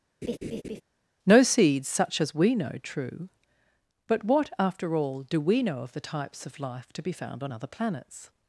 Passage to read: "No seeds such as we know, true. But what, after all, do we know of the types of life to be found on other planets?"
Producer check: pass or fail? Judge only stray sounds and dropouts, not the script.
fail